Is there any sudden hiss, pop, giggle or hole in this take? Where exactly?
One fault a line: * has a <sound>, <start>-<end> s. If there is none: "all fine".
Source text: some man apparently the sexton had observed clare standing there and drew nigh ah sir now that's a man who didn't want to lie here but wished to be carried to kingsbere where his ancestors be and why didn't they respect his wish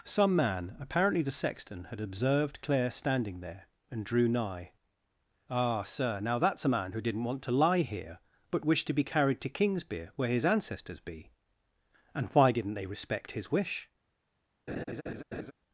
* has a laugh, 14.7-15.5 s